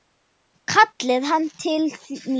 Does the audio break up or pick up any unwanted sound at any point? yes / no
no